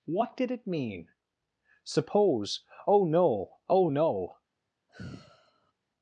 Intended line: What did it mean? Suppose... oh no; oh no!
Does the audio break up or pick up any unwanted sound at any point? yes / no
yes